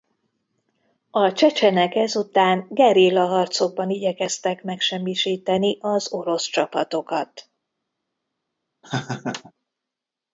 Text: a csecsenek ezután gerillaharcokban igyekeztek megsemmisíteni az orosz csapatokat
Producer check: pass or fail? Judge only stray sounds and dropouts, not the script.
fail